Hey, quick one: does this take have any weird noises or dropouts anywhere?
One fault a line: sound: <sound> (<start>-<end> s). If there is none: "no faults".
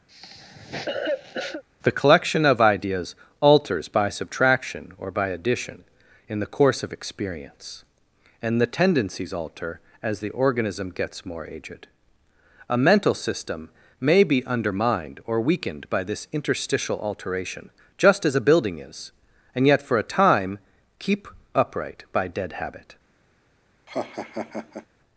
sound: cough (0.1-1.6 s)
sound: laugh (23.9-24.9 s)